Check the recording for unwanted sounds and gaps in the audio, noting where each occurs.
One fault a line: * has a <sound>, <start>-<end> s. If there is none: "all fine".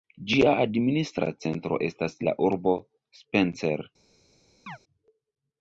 * has a chirp, 4.7-4.8 s